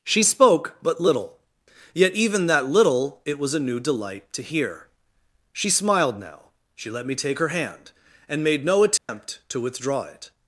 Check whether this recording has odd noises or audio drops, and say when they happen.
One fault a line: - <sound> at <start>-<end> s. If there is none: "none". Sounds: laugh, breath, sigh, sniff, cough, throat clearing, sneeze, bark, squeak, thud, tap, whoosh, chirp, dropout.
- dropout at 9.0-9.1 s